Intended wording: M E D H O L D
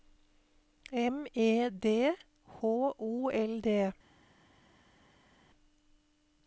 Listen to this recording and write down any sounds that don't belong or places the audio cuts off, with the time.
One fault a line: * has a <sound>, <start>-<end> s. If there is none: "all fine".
all fine